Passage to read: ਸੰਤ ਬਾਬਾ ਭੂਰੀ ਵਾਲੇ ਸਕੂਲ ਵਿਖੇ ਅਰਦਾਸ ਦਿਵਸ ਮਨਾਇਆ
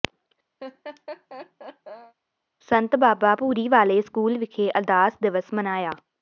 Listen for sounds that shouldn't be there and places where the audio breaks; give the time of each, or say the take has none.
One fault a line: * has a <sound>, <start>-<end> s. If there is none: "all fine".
* has a laugh, 0.6-2.1 s